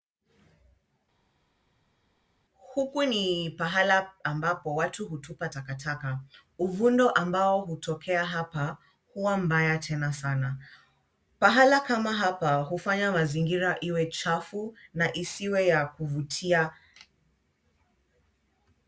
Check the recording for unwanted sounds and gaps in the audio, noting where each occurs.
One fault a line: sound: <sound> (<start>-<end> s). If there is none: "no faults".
no faults